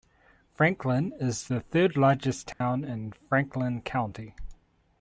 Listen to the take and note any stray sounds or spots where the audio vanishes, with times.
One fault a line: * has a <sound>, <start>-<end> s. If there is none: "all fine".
* has a dropout, 2.5-2.6 s